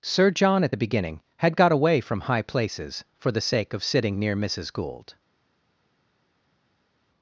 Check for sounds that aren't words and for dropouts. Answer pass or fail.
pass